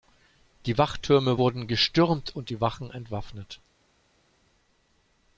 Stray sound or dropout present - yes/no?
no